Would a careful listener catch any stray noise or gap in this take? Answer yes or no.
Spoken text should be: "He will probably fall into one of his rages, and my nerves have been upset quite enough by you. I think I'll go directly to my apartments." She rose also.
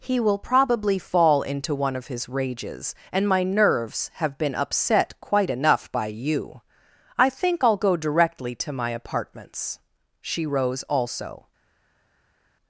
no